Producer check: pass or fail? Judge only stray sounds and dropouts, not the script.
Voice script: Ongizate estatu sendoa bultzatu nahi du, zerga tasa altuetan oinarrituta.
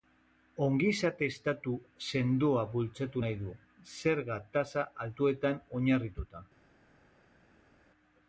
pass